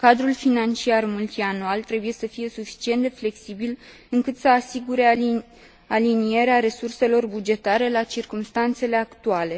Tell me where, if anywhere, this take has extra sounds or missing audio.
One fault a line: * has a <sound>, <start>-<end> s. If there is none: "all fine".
all fine